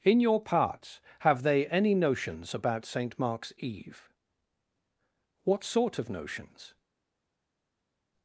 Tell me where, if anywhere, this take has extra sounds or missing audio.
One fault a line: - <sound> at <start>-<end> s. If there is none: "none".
none